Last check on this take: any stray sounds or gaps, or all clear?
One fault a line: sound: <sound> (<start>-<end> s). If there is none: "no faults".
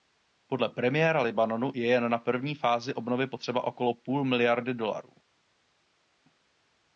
no faults